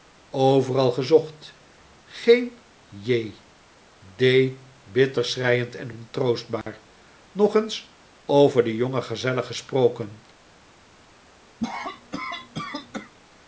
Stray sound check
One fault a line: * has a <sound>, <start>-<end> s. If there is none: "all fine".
* has a dropout, 6.6-6.7 s
* has a cough, 11.6-13.1 s